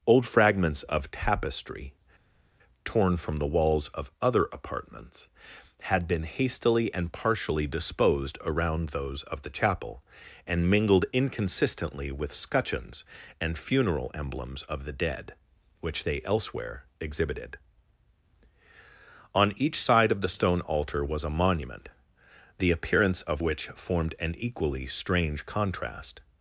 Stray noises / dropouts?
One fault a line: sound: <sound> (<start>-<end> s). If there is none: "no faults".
no faults